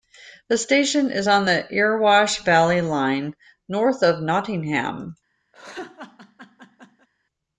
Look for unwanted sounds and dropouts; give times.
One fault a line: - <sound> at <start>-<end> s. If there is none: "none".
- laugh at 5.5-7.1 s